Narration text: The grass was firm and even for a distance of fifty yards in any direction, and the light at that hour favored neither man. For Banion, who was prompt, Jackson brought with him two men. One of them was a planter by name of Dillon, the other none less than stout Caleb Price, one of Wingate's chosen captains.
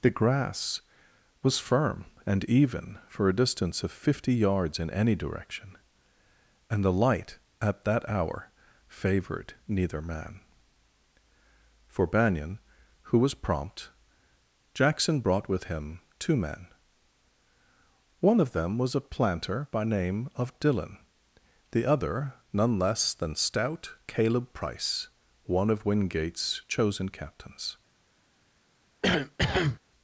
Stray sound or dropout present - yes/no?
yes